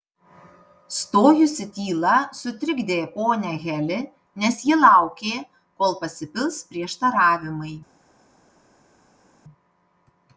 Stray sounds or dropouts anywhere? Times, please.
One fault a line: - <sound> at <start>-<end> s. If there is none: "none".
none